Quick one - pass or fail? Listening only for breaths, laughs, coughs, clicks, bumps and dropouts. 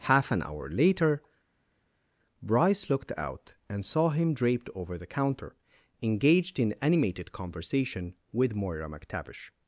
pass